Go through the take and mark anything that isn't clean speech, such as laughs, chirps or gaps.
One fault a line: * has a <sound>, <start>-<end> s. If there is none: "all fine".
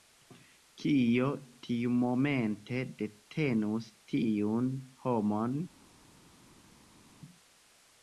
all fine